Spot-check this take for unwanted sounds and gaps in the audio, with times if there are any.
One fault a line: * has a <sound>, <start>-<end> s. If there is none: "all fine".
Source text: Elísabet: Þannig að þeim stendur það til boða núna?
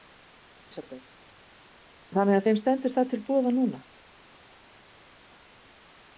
all fine